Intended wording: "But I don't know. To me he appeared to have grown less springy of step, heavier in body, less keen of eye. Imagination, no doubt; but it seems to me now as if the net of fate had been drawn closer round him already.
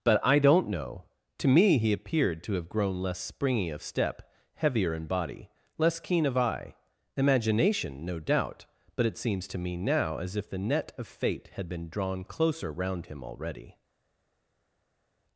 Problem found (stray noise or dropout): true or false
false